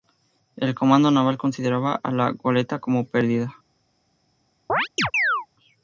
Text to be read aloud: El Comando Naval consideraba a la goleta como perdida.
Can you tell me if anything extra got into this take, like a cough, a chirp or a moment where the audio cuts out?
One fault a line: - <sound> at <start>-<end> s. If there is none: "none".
- chirp at 4.7-5.5 s